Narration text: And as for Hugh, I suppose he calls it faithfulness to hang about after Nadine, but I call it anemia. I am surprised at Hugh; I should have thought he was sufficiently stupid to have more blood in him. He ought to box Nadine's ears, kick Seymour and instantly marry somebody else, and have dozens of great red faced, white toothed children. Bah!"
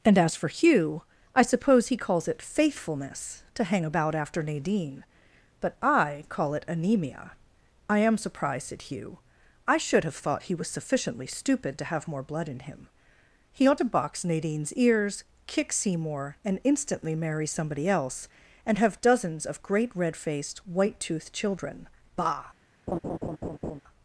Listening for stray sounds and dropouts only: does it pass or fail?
fail